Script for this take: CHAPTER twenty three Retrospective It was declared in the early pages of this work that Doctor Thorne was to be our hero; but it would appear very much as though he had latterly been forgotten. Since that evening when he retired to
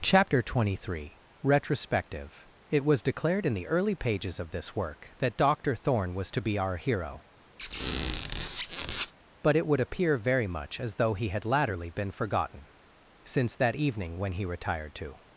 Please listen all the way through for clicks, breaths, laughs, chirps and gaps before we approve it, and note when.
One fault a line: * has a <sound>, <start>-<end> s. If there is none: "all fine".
* has a squeak, 7.6-9.1 s